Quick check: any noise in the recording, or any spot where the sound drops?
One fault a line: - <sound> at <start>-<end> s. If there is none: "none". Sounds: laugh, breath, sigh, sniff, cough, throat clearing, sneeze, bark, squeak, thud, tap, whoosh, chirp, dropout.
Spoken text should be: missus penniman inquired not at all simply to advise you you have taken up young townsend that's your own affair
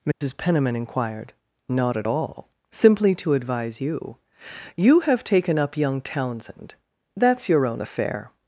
- dropout at 0.1-0.2 s